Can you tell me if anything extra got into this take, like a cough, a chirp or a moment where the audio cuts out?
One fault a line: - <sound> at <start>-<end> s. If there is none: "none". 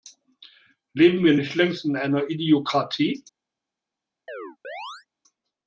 - chirp at 4.3-5.1 s